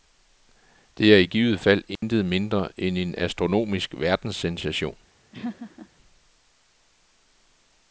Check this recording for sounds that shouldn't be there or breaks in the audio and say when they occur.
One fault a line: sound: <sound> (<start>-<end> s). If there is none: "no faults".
sound: dropout (2.0-2.0 s)
sound: laugh (5.3-5.9 s)